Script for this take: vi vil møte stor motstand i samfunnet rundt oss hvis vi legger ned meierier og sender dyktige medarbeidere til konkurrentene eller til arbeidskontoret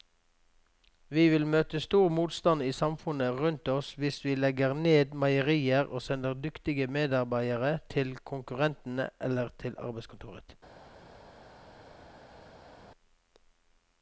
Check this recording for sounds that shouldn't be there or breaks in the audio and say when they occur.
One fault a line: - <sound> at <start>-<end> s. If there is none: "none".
none